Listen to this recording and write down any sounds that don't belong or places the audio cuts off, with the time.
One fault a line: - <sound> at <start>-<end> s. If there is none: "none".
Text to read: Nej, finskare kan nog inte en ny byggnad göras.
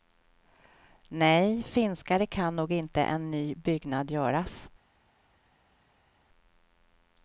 none